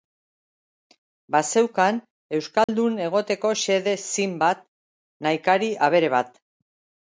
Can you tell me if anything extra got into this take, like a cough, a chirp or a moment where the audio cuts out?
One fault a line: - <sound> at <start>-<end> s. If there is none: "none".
- dropout at 2.6-2.7 s